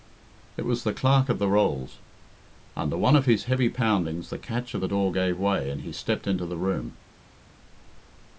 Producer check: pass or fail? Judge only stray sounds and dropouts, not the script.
pass